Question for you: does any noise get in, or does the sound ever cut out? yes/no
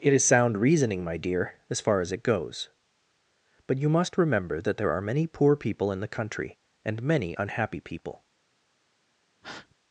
yes